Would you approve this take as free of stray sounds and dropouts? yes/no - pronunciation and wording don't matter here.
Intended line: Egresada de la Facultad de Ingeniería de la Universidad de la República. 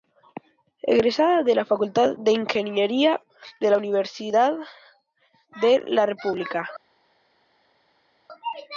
yes